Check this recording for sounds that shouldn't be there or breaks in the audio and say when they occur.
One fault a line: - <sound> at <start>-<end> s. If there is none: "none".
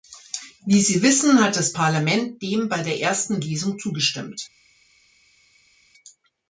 none